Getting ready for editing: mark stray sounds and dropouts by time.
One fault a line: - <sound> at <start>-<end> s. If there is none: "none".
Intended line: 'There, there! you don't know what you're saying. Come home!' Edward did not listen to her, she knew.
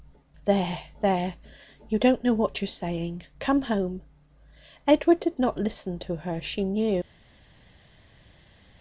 none